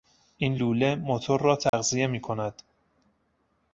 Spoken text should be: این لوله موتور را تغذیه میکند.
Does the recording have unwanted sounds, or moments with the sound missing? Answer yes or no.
yes